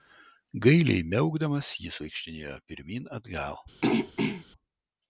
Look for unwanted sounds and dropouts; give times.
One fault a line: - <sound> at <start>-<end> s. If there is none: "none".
- throat clearing at 3.8-4.5 s